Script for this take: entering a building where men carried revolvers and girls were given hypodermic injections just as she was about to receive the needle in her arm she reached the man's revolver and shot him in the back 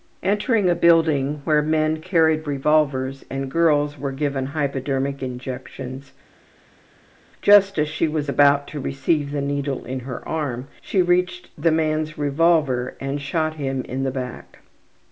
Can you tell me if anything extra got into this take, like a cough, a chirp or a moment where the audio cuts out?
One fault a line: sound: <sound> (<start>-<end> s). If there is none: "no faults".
no faults